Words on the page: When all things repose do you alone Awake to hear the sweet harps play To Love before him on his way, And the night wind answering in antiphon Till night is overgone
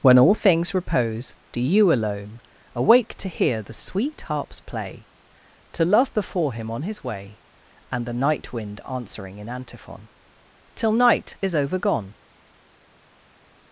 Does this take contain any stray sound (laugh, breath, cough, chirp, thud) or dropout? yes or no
no